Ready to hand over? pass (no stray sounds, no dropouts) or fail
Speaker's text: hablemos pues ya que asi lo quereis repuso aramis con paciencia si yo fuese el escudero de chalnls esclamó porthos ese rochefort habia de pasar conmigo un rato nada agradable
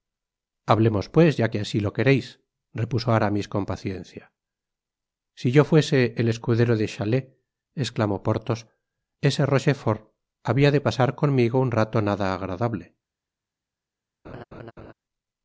fail